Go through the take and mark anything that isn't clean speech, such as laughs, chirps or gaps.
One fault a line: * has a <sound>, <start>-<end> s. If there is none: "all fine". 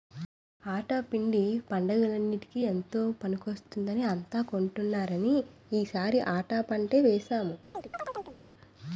* has a chirp, 7.7-8.4 s